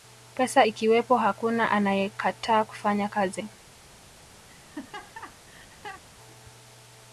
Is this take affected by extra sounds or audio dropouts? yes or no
yes